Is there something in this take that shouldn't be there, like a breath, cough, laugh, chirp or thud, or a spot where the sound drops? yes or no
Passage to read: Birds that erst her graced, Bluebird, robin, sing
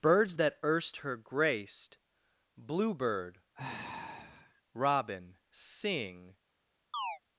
yes